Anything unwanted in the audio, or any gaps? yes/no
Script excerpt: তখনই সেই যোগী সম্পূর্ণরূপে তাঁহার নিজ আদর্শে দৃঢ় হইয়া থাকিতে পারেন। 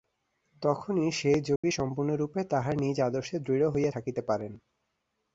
yes